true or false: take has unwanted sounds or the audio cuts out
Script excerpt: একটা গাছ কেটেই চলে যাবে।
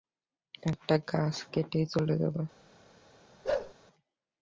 true